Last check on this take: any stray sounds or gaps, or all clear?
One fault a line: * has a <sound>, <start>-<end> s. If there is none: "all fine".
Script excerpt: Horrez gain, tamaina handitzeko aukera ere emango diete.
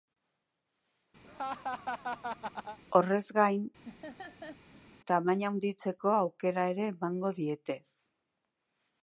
* has a laugh, 1.2-2.8 s
* has a laugh, 3.8-4.9 s